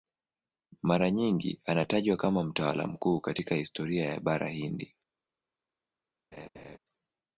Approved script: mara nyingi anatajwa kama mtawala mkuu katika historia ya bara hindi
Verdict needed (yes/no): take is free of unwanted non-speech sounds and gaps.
no